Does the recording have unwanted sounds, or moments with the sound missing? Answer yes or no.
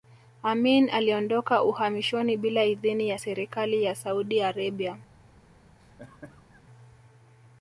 yes